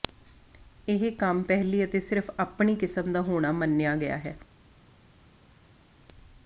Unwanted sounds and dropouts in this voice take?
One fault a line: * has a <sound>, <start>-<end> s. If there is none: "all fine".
all fine